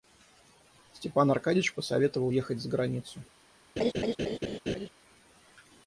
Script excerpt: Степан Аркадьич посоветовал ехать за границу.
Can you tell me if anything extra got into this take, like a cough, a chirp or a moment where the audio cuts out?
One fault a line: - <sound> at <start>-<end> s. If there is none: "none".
- laugh at 3.8-4.9 s